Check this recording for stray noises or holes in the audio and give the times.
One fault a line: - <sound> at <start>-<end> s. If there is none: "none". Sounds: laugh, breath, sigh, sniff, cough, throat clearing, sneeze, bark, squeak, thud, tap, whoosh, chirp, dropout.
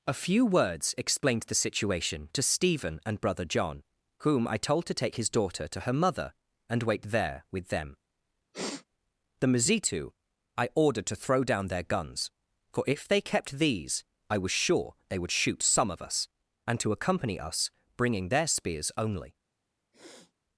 - sniff at 8.5-8.8 s
- sniff at 19.9-20.3 s